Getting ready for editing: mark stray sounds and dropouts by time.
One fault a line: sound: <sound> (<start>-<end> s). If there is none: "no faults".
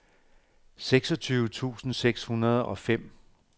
no faults